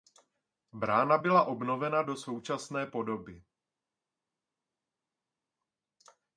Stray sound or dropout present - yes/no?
no